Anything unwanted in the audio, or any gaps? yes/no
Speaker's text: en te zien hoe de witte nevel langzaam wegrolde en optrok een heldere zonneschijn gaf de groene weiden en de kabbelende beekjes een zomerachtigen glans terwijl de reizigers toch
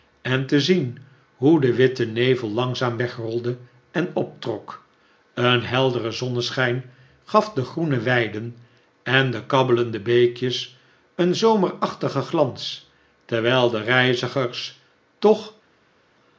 no